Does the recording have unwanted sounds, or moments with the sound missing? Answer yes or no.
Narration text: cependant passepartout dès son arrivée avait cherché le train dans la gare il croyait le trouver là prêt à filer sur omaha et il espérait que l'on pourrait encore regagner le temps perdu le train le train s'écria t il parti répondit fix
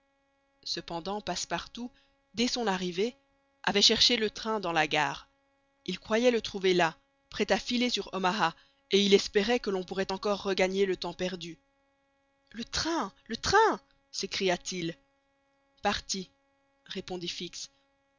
no